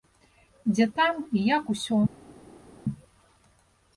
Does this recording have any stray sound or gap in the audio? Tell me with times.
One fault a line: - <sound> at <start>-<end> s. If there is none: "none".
none